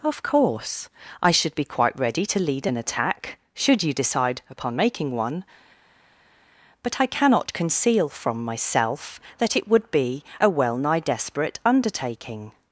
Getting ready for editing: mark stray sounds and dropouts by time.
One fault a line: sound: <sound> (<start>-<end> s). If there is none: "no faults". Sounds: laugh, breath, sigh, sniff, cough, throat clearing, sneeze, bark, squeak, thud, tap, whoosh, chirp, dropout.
no faults